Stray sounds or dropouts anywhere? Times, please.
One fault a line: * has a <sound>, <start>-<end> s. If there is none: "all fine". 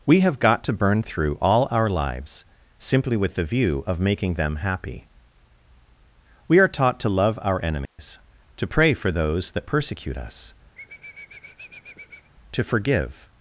* has a dropout, 7.9-8.0 s
* has a sniff, 10.7-12.3 s